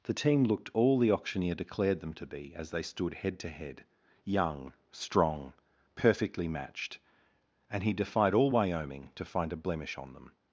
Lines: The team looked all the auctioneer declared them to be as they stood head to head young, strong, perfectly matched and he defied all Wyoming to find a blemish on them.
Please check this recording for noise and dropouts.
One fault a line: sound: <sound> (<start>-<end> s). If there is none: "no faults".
no faults